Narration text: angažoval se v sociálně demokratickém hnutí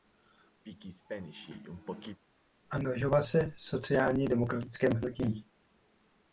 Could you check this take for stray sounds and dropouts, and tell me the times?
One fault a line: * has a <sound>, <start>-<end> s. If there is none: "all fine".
* has a throat clearing, 0.6-2.2 s